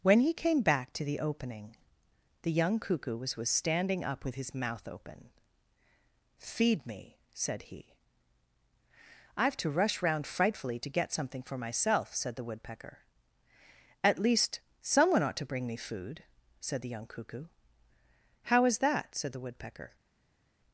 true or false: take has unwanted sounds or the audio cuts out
false